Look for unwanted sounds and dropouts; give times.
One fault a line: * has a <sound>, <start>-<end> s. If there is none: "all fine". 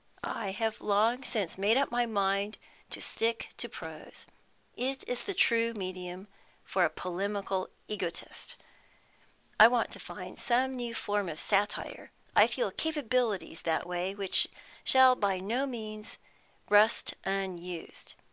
all fine